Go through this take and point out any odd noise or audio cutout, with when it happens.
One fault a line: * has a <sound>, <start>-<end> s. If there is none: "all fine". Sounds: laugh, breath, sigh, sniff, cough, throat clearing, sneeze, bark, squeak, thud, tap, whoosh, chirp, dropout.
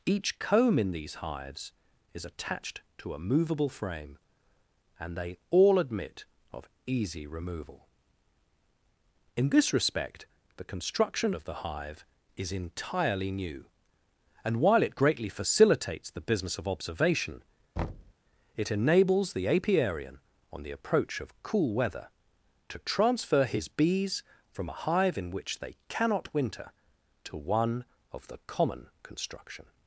* has a thud, 17.8-18.1 s